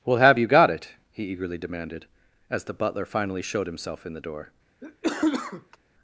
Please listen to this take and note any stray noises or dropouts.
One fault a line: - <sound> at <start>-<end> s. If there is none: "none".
- cough at 4.8-5.8 s